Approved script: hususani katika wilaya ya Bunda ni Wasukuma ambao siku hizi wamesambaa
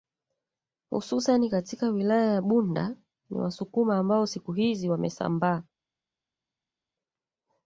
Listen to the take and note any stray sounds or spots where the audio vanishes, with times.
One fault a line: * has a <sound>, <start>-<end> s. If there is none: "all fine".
all fine